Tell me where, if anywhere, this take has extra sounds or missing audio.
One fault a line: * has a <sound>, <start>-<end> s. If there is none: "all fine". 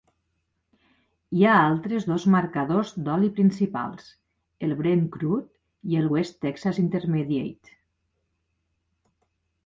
all fine